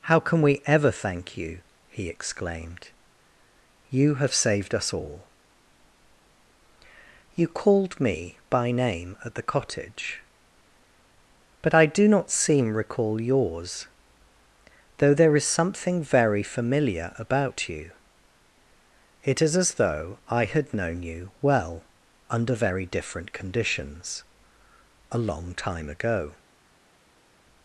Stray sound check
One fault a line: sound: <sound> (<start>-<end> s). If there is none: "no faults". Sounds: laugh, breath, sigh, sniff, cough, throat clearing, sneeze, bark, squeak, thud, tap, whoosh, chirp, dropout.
no faults